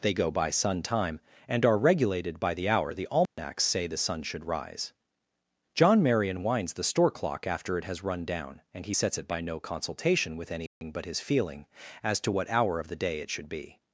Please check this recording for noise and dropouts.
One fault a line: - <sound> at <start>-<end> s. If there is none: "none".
- dropout at 3.3-3.4 s
- dropout at 10.7-10.8 s